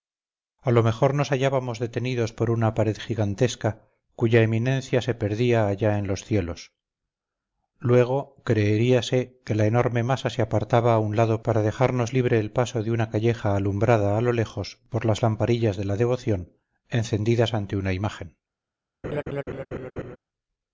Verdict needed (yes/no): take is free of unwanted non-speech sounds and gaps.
no